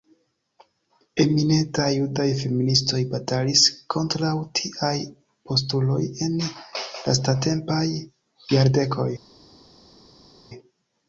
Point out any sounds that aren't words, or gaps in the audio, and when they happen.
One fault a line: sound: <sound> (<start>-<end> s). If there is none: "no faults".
no faults